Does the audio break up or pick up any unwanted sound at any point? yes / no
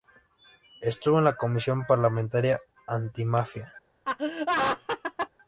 yes